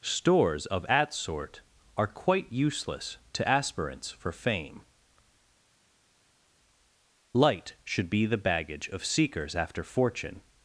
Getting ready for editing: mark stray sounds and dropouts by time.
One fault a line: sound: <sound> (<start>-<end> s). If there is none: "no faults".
no faults